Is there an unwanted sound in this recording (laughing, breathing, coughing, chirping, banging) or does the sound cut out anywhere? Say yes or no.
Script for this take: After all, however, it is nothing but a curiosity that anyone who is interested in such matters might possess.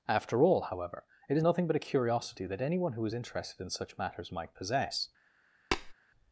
yes